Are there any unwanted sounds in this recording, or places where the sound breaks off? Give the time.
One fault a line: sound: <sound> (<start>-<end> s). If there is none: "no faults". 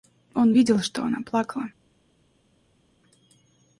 no faults